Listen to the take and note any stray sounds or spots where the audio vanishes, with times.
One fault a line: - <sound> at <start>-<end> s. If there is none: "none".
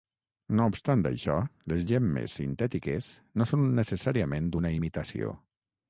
none